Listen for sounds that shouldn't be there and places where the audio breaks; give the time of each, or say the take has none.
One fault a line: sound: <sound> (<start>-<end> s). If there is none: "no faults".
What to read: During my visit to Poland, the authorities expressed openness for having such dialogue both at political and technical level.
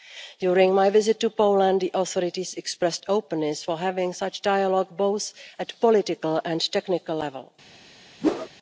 sound: whoosh (8.2-8.5 s)